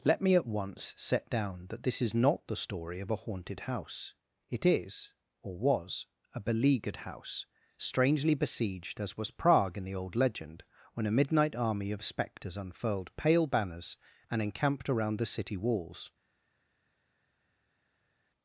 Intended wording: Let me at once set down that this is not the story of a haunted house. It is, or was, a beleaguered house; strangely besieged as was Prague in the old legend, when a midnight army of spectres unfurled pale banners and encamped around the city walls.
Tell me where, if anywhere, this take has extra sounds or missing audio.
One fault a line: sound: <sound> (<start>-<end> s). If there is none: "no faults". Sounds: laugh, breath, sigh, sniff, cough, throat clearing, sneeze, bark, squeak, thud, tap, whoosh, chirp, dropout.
no faults